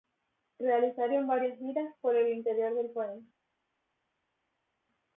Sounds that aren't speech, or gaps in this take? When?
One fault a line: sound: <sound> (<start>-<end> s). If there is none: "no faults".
no faults